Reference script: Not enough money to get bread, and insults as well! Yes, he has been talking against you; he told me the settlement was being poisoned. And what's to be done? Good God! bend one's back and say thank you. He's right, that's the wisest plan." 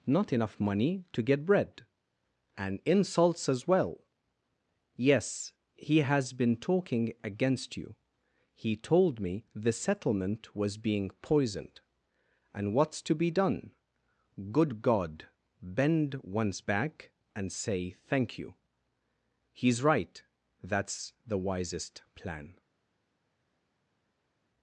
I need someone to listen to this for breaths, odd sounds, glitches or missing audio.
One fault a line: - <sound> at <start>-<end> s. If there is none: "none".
none